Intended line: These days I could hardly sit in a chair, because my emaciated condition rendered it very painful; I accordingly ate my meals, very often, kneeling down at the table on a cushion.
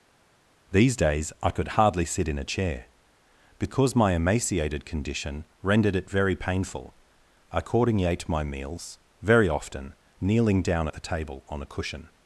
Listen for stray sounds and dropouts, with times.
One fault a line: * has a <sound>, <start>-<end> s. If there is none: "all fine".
all fine